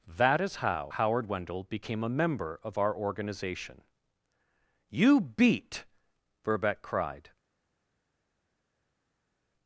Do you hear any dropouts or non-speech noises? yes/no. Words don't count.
no